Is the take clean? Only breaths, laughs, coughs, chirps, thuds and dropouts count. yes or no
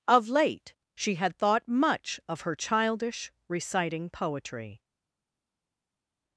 yes